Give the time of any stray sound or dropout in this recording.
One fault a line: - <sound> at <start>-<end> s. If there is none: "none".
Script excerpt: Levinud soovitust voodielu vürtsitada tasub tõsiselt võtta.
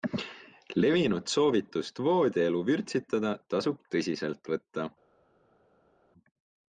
none